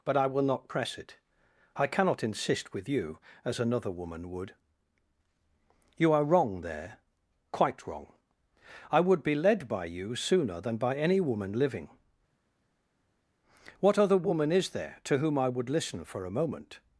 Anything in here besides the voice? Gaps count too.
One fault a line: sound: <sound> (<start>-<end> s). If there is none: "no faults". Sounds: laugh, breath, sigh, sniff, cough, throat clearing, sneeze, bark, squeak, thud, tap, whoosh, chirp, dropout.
no faults